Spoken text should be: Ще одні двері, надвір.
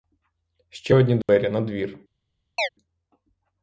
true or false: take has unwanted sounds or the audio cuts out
true